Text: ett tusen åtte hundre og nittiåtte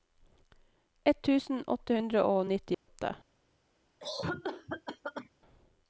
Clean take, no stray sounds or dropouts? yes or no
no